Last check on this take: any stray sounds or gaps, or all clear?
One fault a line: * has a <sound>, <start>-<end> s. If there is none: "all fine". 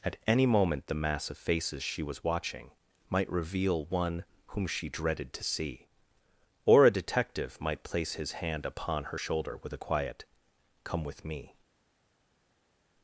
all fine